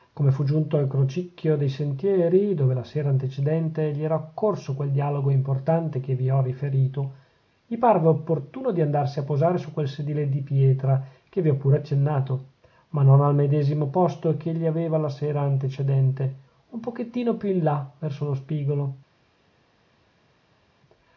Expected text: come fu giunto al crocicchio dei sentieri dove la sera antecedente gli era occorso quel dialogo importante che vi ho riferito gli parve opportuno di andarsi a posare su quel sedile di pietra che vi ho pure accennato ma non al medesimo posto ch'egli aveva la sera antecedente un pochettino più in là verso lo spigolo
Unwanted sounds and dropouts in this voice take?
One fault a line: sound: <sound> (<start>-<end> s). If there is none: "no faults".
no faults